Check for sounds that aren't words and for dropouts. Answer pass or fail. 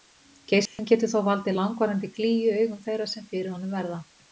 fail